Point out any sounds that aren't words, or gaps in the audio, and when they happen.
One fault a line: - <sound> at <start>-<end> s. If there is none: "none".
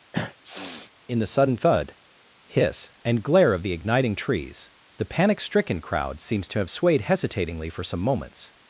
- sniff at 0.1-0.9 s